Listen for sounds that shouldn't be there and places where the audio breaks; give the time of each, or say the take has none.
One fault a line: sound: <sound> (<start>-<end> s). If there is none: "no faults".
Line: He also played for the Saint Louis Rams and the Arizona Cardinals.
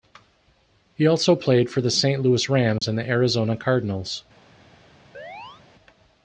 sound: dropout (2.8-2.8 s)
sound: chirp (5.1-5.6 s)